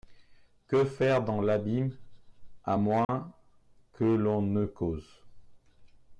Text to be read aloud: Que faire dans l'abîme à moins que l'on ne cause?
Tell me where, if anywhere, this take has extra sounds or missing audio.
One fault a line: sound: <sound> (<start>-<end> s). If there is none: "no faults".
sound: dropout (3.0-3.1 s)